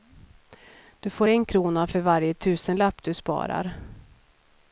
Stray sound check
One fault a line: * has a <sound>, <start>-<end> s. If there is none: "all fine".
all fine